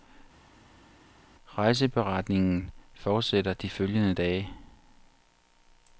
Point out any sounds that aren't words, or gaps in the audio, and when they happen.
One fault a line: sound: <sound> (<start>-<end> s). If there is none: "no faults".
no faults